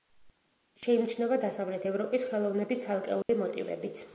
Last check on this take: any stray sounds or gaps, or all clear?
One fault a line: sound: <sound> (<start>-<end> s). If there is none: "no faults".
sound: dropout (3.2-3.3 s)